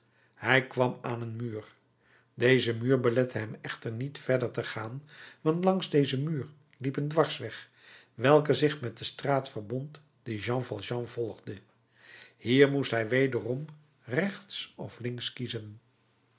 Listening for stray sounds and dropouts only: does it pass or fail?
pass